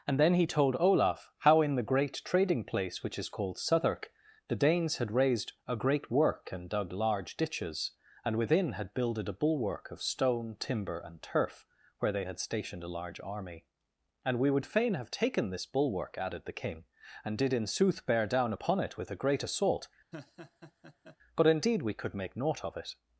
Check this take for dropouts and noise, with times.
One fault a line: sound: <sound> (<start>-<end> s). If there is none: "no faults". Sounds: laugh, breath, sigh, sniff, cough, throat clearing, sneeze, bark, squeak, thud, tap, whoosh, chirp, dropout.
sound: laugh (20.1-21.2 s)